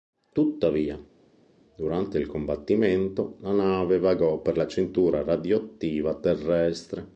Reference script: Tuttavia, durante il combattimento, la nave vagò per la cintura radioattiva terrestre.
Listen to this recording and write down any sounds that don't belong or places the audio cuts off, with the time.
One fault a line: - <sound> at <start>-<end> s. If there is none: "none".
none